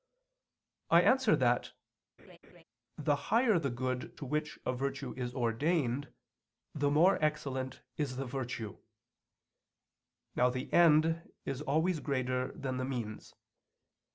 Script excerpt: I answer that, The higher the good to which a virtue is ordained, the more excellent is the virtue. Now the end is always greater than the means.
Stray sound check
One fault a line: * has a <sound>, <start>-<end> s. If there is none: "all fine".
* has a laugh, 2.2-2.6 s